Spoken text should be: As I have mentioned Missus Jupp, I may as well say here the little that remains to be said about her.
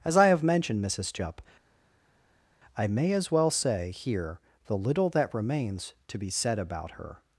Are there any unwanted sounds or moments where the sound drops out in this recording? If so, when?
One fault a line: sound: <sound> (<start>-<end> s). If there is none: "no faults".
no faults